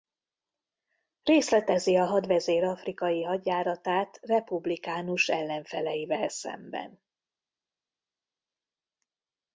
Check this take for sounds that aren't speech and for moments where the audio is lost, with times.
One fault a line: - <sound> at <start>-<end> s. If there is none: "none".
none